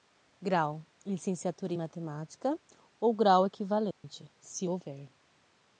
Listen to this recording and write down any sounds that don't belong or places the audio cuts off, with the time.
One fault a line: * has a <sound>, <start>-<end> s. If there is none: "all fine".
* has a dropout, 3.9-4.0 s